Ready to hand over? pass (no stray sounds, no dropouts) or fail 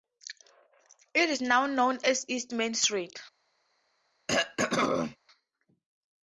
fail